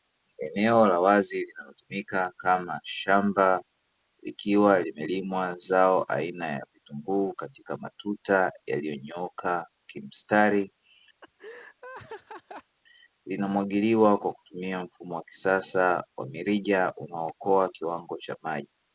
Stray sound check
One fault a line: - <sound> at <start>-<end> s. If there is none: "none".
- laugh at 11.2-12.8 s